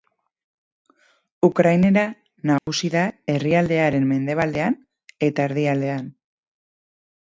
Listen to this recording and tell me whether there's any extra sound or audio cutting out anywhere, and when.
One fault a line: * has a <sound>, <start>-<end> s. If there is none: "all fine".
* has a dropout, 2.6-2.7 s